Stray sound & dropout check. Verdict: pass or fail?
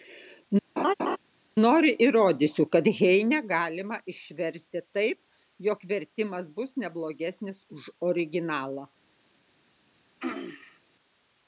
fail